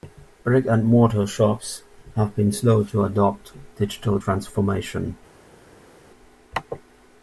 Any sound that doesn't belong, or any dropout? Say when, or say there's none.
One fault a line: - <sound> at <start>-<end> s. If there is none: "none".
none